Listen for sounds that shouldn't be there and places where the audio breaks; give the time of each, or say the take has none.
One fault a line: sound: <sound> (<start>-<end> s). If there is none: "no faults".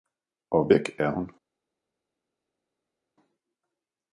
no faults